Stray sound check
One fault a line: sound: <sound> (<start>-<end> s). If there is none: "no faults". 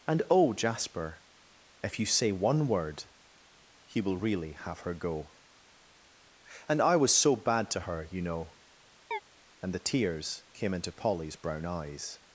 sound: chirp (9.1-9.2 s)